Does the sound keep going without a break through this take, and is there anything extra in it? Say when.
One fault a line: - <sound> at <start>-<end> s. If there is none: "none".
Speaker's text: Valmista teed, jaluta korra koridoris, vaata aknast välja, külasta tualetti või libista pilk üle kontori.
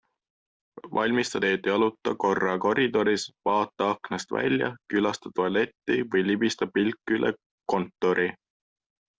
none